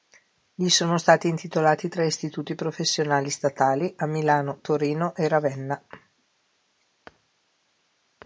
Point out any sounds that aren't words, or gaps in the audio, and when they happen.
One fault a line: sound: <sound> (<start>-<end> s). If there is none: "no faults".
no faults